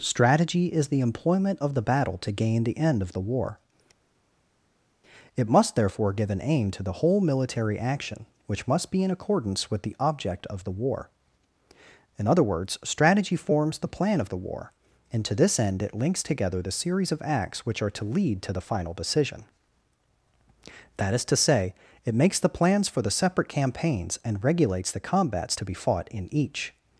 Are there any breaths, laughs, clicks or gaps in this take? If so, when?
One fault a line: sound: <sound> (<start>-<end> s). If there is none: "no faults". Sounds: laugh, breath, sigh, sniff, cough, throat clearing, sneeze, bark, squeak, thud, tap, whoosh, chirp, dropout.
no faults